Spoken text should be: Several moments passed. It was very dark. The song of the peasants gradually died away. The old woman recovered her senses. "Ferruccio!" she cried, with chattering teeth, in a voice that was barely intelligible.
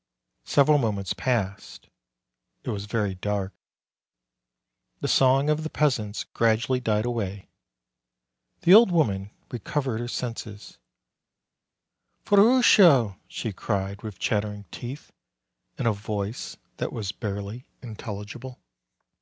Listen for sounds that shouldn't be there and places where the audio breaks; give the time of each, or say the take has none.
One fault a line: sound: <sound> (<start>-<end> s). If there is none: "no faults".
no faults